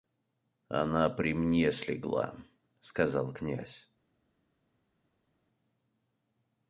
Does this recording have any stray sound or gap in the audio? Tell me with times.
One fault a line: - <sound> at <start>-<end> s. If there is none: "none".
none